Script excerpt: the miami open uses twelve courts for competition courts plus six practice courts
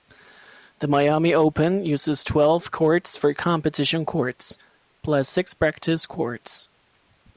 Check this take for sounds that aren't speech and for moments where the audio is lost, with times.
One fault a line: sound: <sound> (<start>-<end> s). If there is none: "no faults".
no faults